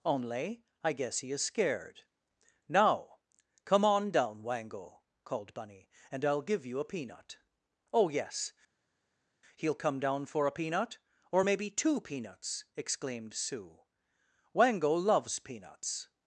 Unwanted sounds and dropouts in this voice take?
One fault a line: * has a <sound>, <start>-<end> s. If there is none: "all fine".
all fine